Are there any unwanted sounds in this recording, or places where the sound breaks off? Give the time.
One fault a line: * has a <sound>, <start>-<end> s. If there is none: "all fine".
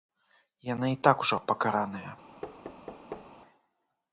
* has a thud, 2.4-3.3 s